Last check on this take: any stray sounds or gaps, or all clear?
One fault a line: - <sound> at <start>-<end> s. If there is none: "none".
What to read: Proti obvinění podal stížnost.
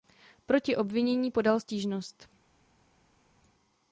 none